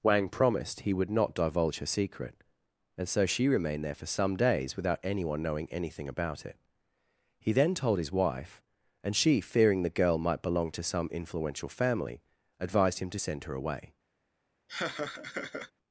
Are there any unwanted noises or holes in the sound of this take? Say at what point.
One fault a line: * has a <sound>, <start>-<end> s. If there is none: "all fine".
* has a laugh, 14.7-15.7 s